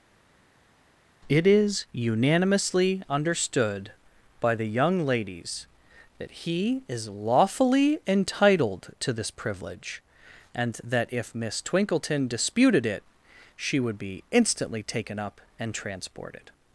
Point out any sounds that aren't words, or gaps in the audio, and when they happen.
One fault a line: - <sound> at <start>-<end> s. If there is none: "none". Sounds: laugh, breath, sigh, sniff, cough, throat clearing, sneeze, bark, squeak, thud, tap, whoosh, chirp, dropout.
none